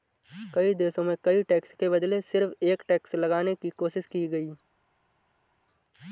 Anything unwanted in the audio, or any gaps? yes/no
no